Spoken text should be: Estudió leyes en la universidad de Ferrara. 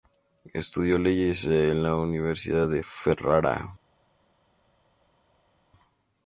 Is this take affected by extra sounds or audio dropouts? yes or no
no